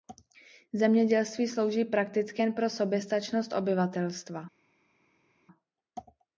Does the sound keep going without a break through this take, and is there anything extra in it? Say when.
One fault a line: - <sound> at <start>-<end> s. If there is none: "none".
none